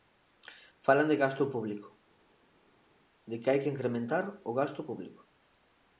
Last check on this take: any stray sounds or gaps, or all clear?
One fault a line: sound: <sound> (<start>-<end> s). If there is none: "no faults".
no faults